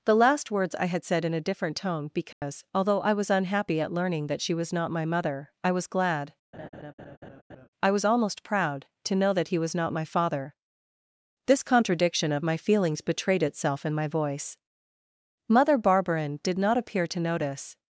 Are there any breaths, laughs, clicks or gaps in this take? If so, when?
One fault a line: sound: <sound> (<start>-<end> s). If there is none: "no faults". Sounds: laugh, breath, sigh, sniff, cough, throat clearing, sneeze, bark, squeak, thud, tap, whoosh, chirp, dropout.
sound: dropout (2.3-2.4 s)
sound: laugh (6.5-7.7 s)